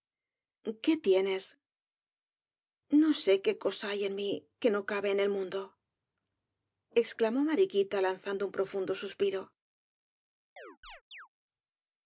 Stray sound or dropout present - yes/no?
yes